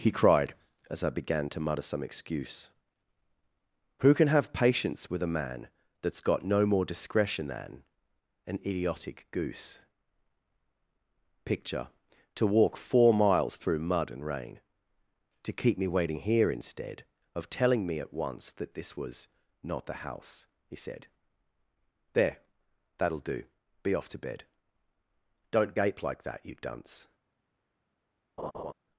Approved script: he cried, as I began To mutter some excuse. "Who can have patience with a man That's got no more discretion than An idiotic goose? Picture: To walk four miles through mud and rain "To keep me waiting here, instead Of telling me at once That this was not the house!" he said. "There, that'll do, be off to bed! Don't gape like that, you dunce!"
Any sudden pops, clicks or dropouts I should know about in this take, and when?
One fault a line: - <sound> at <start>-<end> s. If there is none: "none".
- laugh at 28.4-28.7 s